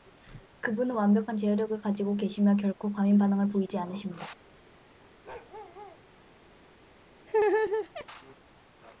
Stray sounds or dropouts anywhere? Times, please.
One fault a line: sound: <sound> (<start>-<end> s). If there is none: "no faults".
sound: bark (5.2-6.0 s)
sound: laugh (7.3-8.1 s)